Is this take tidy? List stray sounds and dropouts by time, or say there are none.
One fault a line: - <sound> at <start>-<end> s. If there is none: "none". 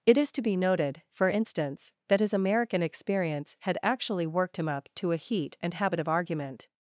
none